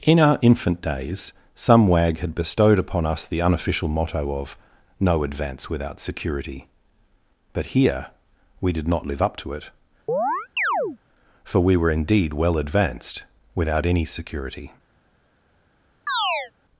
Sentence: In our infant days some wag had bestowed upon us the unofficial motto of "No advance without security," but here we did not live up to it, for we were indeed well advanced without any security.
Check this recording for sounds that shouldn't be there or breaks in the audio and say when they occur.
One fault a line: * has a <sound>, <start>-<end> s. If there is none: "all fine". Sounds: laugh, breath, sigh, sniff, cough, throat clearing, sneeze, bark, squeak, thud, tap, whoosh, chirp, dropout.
* has a chirp, 10.1-11.0 s
* has a chirp, 16.1-16.5 s